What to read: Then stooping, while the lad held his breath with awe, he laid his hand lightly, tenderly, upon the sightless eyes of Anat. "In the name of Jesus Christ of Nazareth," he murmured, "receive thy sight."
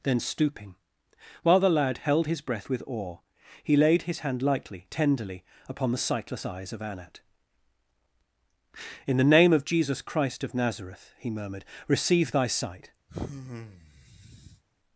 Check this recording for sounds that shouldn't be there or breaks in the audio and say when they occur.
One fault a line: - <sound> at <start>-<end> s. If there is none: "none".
- sigh at 13.1-14.6 s